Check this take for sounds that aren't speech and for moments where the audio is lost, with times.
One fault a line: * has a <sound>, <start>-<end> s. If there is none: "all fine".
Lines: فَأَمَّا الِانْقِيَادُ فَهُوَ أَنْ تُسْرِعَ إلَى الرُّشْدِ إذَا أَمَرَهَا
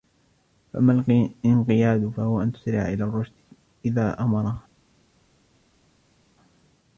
all fine